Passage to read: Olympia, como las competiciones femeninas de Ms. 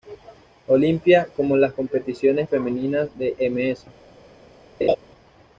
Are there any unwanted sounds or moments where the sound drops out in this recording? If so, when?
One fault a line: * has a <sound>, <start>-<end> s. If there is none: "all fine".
* has a laugh, 4.8-5.0 s